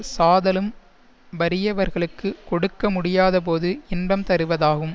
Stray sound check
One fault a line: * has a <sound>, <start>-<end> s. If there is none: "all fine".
all fine